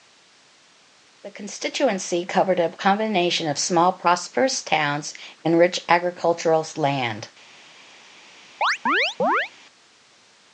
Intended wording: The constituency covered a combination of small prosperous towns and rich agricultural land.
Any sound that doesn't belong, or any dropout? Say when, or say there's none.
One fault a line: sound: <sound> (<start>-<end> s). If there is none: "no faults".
sound: chirp (8.6-9.5 s)